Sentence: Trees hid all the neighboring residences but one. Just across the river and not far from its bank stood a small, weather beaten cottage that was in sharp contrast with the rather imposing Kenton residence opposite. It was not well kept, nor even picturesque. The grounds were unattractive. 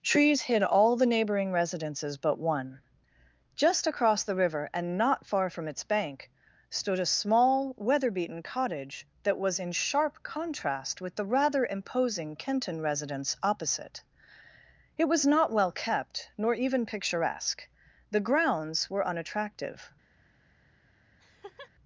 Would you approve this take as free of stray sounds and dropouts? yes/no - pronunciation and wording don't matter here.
no